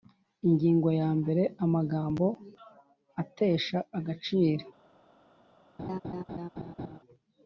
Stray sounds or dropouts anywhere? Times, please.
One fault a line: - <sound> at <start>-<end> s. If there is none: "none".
- laugh at 5.8-7.0 s